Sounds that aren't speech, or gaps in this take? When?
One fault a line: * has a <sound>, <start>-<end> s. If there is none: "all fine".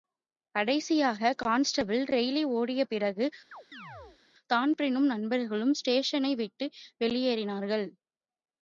* has a chirp, 3.5-4.2 s